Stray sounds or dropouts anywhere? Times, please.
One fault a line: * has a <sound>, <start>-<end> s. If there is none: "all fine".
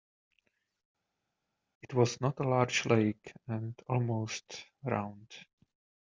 all fine